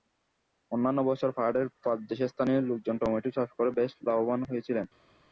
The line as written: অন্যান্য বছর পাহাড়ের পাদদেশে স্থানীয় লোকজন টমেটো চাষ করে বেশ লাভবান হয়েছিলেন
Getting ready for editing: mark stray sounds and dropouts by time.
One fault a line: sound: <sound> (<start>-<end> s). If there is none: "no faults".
no faults